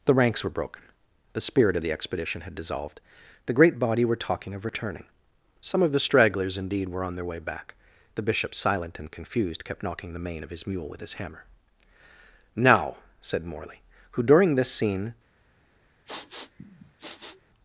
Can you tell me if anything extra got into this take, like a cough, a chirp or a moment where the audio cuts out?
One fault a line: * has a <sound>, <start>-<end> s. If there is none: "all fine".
* has a sniff, 16.1-17.4 s